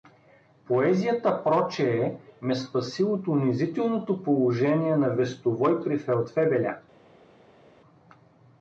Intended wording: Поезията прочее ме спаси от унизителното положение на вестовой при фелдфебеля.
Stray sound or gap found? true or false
false